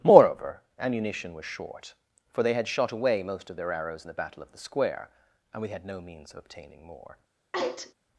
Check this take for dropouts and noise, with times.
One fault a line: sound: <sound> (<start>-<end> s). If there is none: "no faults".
sound: sneeze (7.5-7.9 s)